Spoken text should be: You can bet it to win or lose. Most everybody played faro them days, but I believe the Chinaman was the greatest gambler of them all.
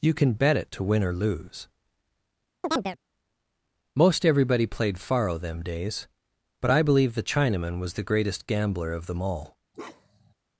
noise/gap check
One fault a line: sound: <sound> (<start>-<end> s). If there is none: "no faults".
sound: chirp (2.6-3.0 s)
sound: bark (9.7-10.3 s)